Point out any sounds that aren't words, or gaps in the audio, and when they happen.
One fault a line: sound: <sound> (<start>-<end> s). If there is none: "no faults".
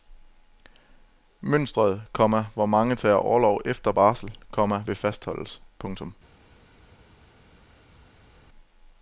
no faults